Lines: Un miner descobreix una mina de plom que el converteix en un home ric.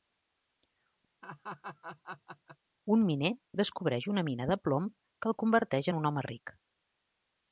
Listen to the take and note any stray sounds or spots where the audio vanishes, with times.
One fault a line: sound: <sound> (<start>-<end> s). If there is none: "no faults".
sound: laugh (1.2-2.6 s)